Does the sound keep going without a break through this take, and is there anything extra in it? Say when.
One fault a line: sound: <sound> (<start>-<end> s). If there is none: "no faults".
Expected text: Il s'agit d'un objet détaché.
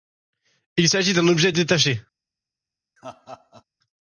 sound: laugh (3.0-3.6 s)